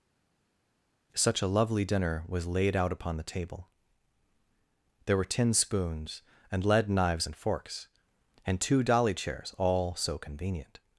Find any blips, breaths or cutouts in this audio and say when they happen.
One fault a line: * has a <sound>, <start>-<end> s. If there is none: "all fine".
all fine